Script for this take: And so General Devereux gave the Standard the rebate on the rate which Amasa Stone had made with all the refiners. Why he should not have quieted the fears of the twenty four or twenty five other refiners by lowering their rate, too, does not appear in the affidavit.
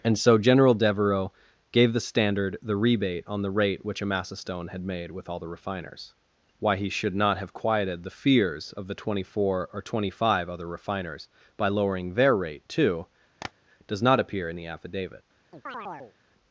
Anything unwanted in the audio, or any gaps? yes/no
yes